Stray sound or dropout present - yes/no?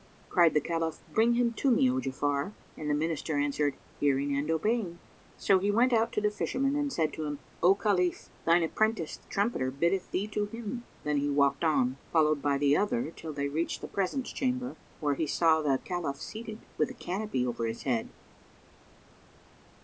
no